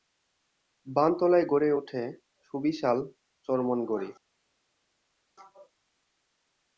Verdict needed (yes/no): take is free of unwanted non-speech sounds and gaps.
yes